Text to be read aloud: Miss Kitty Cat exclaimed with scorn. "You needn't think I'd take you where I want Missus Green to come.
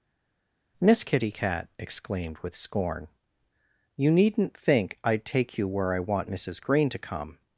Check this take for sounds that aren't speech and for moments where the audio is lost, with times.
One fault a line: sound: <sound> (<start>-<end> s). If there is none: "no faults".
no faults